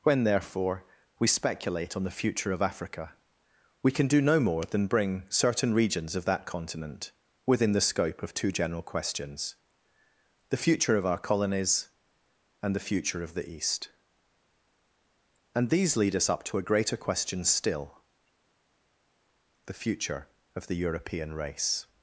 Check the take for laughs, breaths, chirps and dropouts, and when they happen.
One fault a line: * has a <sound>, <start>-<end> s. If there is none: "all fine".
all fine